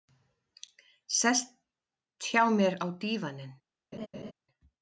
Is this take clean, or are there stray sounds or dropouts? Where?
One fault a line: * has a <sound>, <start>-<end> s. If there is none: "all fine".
* has a laugh, 3.9-4.3 s